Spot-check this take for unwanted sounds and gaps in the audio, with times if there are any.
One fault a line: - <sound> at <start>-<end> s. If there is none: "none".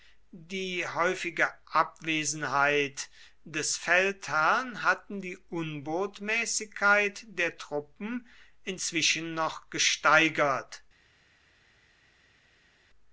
none